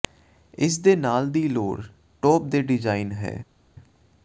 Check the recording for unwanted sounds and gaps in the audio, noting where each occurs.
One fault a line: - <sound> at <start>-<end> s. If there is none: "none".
none